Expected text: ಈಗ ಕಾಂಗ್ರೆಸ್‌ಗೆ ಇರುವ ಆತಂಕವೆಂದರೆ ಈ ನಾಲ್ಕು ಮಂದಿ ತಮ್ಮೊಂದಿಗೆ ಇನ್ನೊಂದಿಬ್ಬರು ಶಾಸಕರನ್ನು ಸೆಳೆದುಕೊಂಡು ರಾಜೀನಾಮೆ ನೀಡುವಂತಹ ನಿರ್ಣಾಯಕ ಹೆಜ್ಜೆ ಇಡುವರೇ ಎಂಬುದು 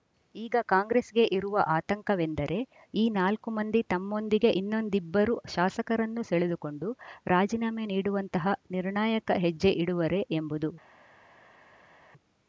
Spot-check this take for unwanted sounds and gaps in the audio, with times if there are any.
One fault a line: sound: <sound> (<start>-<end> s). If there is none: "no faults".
no faults